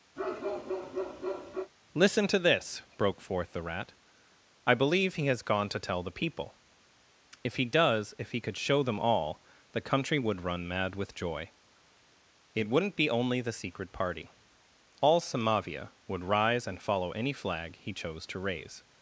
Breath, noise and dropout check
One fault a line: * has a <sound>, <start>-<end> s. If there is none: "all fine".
* has a bark, 0.2-1.7 s